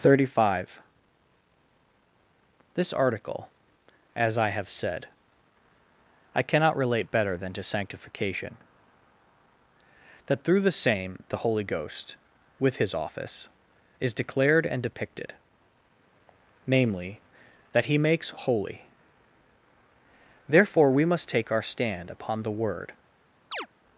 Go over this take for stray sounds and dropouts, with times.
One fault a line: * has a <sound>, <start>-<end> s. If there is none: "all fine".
* has a chirp, 23.5-23.7 s